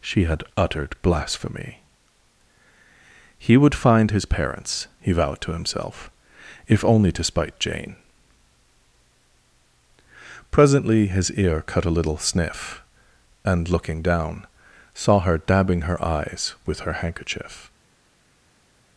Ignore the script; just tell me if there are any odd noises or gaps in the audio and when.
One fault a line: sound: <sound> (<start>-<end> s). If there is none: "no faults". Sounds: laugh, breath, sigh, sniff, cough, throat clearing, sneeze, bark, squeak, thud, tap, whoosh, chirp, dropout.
no faults